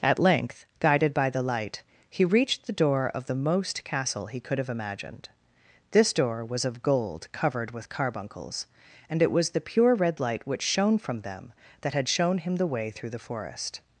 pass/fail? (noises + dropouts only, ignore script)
pass